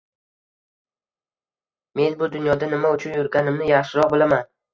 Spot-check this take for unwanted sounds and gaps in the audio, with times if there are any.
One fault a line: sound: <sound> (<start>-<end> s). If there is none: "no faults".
no faults